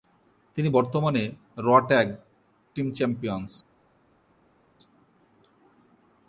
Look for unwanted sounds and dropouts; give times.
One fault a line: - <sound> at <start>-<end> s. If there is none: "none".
none